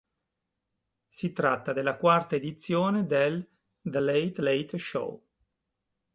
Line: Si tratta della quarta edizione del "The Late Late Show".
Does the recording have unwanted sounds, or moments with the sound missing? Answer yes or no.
no